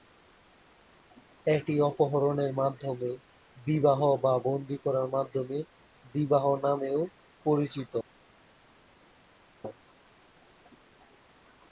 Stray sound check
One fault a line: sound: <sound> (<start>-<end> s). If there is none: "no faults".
no faults